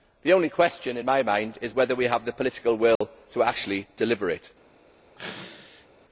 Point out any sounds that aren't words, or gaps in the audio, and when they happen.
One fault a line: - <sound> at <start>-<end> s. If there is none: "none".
- dropout at 3.0-3.0 s
- sneeze at 5.2-5.9 s